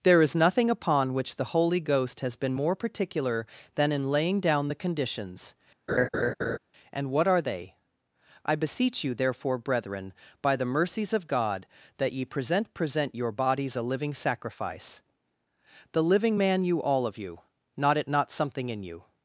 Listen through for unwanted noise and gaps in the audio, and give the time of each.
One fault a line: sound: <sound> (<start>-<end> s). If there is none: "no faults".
sound: laugh (5.9-6.6 s)